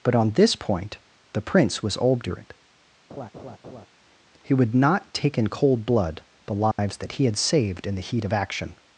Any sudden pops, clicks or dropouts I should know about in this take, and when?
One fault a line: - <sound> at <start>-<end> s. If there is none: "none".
- laugh at 3.1-3.9 s
- dropout at 6.7-6.8 s